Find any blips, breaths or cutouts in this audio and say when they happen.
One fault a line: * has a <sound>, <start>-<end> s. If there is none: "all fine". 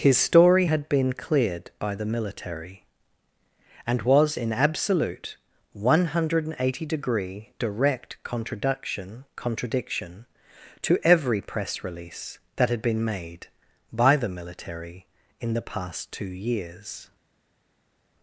all fine